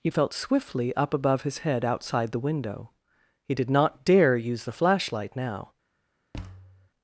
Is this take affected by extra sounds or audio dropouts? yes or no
yes